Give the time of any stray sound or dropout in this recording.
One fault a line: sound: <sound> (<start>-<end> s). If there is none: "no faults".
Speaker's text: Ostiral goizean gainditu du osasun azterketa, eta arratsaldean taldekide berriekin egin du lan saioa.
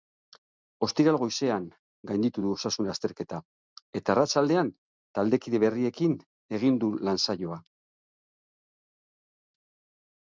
no faults